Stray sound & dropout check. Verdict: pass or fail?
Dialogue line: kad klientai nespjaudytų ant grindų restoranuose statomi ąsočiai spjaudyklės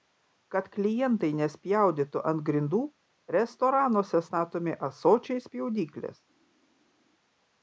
pass